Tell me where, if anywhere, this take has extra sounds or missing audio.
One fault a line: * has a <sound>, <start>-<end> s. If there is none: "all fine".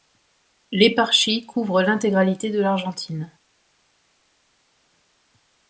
all fine